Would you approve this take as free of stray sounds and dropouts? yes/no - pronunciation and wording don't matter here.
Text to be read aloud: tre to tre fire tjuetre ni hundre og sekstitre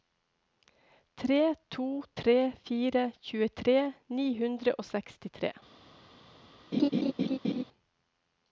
no